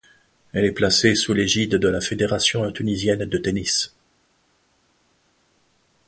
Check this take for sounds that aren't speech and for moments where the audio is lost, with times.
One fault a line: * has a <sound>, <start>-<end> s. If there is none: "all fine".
all fine